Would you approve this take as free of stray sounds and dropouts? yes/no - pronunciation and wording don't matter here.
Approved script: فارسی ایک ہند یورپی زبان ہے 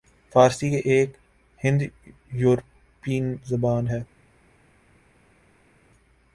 yes